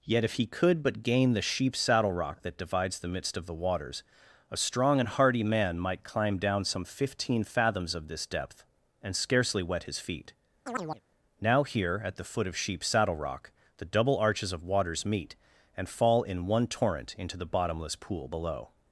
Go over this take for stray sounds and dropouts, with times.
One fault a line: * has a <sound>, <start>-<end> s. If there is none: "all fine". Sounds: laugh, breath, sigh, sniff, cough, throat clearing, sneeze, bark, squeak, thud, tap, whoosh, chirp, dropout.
* has a chirp, 10.7-11.0 s